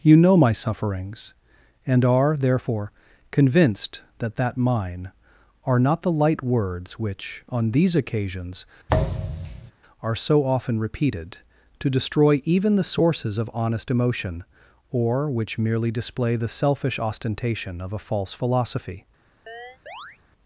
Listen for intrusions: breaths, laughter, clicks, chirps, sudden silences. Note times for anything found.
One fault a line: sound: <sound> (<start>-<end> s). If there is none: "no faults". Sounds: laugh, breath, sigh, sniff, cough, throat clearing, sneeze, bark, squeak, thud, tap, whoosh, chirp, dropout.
sound: thud (8.9-9.7 s)
sound: chirp (19.5-20.2 s)